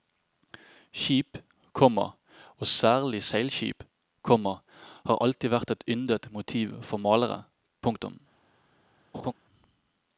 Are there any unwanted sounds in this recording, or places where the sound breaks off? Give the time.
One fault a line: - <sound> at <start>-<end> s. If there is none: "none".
- laugh at 9.1-9.3 s